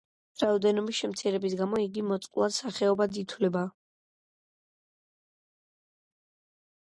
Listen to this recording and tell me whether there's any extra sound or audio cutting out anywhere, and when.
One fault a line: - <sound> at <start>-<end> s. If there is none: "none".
none